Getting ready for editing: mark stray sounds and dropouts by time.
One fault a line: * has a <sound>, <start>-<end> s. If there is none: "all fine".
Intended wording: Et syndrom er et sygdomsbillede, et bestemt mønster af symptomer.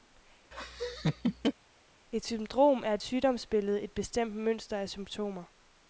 * has a laugh, 0.5-1.5 s